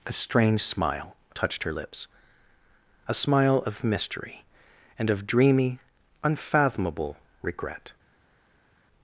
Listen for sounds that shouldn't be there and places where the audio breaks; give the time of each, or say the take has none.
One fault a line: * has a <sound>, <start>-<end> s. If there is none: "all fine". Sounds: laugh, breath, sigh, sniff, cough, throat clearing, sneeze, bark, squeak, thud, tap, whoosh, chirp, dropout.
all fine